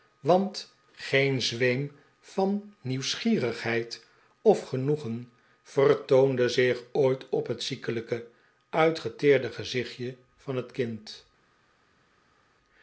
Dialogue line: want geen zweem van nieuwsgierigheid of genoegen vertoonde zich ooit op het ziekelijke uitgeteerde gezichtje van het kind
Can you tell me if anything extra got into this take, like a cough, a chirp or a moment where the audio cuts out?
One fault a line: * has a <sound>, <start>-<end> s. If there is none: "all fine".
all fine